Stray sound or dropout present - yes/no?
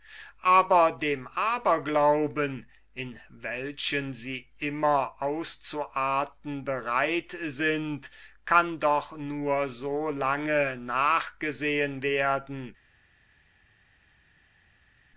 no